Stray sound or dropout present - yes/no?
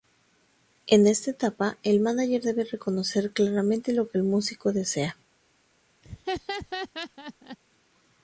yes